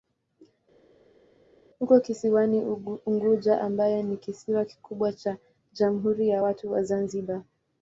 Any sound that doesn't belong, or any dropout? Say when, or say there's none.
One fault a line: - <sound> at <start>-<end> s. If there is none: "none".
none